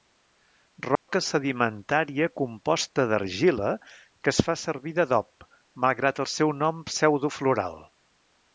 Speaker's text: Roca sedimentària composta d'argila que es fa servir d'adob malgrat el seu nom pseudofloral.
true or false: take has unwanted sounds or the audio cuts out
true